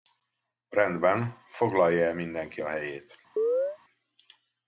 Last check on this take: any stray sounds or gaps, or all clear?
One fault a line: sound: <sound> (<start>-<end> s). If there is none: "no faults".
sound: chirp (3.4-3.8 s)